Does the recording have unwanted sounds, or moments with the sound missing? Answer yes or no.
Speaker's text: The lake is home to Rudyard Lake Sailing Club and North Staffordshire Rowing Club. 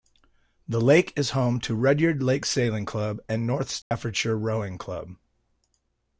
yes